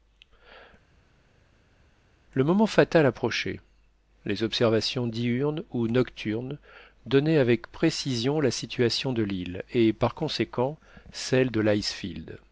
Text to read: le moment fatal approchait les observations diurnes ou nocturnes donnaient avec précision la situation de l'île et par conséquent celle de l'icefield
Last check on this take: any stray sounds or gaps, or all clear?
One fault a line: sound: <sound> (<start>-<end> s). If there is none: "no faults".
no faults